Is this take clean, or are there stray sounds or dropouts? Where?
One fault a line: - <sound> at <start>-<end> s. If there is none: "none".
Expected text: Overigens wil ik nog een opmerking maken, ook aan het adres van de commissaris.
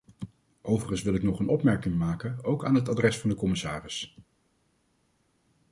none